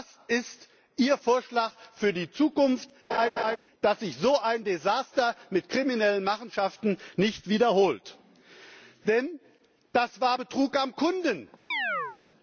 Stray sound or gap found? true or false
true